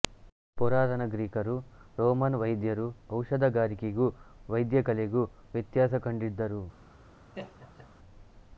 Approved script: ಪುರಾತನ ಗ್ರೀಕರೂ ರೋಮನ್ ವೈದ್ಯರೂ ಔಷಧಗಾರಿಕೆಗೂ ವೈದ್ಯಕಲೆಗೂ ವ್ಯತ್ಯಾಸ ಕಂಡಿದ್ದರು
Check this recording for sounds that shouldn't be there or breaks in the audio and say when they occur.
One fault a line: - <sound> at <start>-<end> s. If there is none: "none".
- laugh at 7.3-7.9 s